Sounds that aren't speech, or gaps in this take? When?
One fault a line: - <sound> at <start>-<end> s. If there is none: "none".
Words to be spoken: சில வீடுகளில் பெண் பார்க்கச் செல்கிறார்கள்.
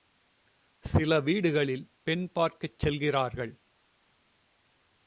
none